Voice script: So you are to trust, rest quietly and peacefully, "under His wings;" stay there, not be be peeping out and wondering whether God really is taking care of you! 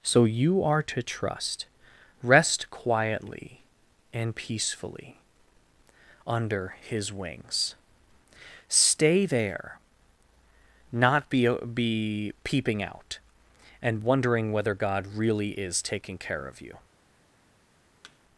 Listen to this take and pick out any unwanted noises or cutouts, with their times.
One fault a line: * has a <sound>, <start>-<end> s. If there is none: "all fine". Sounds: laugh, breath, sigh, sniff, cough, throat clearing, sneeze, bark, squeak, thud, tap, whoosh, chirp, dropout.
* has a thud, 18.0-18.2 s